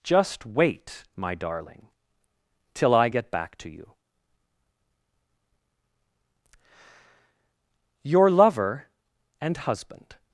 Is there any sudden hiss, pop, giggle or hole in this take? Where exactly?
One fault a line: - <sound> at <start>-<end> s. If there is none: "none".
none